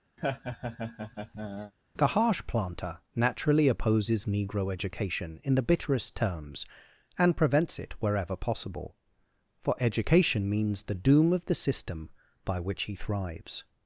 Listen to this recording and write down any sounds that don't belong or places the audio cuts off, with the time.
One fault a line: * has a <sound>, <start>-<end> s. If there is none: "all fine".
* has a laugh, 0.2-1.7 s